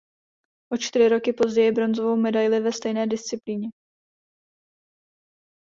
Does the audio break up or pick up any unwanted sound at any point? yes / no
no